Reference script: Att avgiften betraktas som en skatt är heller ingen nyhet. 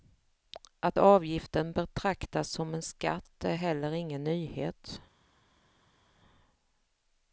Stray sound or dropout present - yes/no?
no